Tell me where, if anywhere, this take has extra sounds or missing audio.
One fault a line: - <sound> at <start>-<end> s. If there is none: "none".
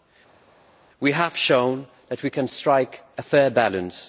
none